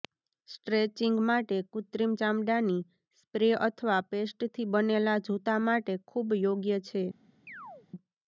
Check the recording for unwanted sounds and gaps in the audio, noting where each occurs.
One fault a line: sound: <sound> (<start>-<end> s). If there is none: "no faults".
sound: chirp (7.5-7.9 s)